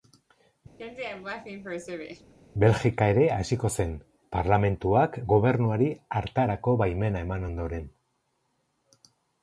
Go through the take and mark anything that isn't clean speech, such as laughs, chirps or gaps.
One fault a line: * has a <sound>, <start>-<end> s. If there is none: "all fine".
* has a laugh, 0.8-2.3 s